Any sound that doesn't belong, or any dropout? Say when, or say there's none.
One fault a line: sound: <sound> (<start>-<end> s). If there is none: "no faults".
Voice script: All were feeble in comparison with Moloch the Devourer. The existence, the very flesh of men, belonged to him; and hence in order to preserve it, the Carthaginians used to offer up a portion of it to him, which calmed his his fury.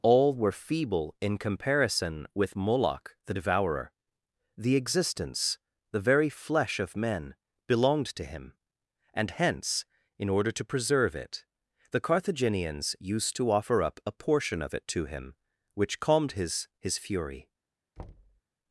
sound: thud (18.0-18.4 s)